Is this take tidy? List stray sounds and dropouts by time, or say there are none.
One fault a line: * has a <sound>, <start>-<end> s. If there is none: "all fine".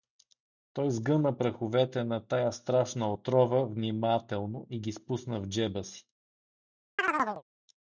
* has a chirp, 7.0-7.4 s